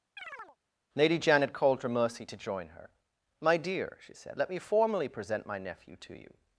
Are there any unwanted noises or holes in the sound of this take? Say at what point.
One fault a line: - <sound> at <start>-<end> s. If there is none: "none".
- chirp at 0.2-0.6 s